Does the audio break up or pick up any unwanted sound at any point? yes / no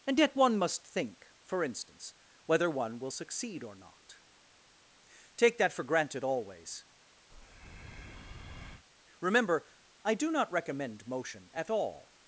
yes